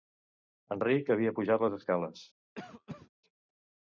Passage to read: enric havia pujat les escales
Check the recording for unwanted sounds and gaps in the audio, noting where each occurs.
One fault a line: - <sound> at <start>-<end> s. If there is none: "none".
- cough at 2.5-3.1 s